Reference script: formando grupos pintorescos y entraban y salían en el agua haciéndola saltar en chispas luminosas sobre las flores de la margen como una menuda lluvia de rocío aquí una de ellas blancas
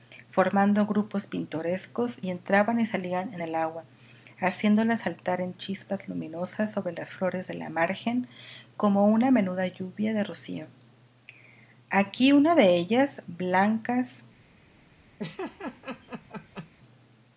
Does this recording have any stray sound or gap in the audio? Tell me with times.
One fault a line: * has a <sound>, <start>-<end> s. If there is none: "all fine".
* has a laugh, 15.2-16.7 s